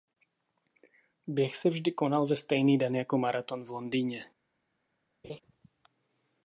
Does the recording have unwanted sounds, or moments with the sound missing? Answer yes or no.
yes